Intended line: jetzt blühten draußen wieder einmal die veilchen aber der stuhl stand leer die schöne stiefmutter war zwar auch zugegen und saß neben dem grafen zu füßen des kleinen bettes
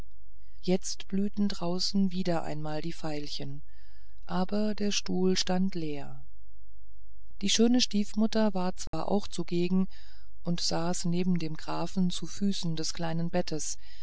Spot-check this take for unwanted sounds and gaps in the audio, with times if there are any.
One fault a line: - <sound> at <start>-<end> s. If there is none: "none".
- dropout at 8.9-8.9 s